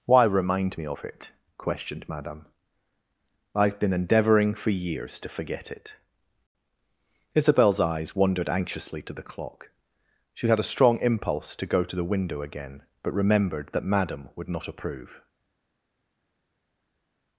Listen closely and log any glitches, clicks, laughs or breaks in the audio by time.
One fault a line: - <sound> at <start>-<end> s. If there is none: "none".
none